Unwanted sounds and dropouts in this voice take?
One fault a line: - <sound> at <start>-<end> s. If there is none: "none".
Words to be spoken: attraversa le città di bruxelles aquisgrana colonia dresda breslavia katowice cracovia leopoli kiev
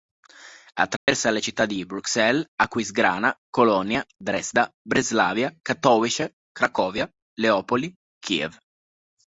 - dropout at 1.0-1.1 s